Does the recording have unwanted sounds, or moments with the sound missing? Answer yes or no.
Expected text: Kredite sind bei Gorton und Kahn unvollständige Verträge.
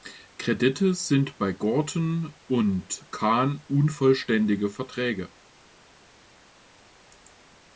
no